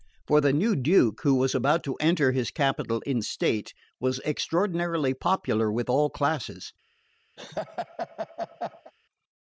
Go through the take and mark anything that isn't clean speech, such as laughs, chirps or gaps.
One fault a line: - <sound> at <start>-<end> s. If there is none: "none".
- laugh at 7.4-8.9 s